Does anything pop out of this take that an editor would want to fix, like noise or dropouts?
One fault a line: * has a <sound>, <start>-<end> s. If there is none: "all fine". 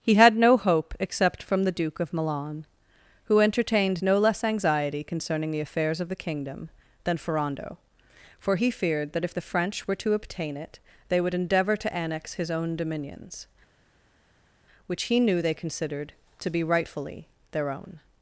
all fine